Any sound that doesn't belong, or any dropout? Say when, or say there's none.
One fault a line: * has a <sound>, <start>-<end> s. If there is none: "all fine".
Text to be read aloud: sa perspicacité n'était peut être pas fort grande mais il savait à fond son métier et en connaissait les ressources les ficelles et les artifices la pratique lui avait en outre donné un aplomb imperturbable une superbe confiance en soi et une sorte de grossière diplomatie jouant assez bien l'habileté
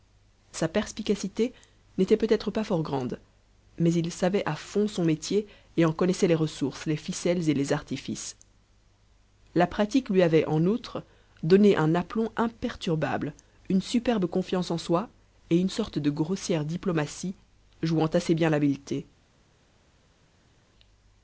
all fine